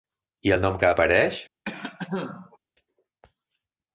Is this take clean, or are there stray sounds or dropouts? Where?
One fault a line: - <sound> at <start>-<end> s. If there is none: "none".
- cough at 1.7-2.6 s